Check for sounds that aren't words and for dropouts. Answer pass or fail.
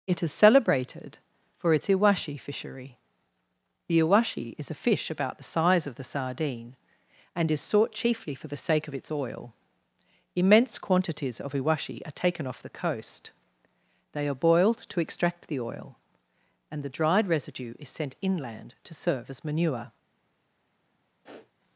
fail